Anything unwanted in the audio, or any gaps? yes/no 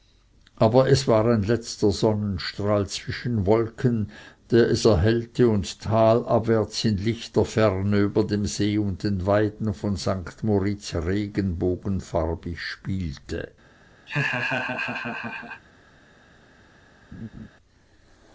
yes